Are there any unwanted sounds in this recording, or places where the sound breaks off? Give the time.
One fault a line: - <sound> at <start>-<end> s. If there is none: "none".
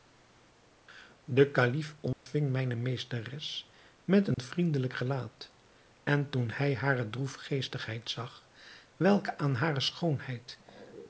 - dropout at 2.1-2.3 s
- dropout at 4.3-4.4 s